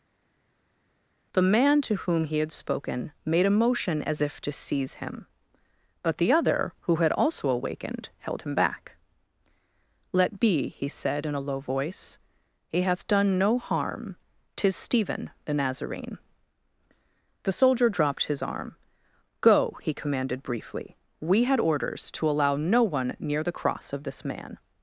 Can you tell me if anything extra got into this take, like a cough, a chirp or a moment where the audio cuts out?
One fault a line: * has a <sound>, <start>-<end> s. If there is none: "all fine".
all fine